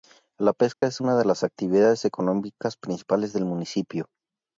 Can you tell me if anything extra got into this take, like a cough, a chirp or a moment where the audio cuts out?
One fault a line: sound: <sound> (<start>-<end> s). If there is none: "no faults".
sound: dropout (0.7-0.8 s)